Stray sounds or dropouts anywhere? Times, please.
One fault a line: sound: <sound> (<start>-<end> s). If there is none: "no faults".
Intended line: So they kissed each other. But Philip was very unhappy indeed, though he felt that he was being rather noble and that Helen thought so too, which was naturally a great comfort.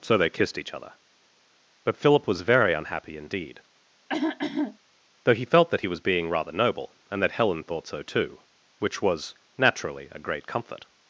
sound: throat clearing (4.1-4.8 s)